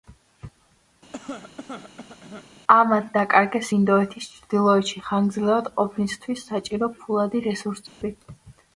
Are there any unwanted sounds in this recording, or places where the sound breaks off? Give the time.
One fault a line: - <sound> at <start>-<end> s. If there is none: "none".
- cough at 1.1-2.5 s
- dropout at 7.9-8.0 s